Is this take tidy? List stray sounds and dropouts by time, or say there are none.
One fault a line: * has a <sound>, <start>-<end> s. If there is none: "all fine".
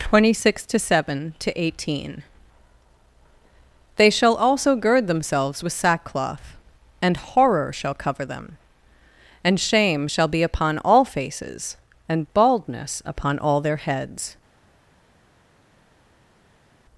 all fine